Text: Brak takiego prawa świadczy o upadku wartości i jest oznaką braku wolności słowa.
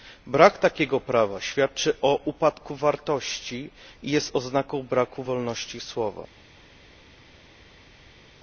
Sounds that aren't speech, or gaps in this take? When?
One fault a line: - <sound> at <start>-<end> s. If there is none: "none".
none